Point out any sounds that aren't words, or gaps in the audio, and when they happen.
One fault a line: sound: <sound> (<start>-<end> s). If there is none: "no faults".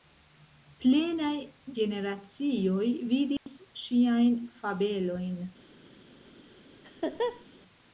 sound: dropout (3.4-3.5 s)
sound: laugh (6.8-7.4 s)